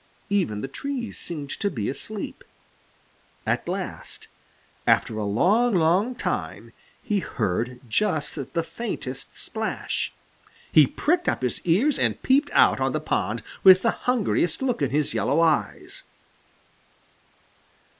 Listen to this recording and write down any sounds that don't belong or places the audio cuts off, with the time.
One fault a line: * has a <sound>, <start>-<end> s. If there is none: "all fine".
all fine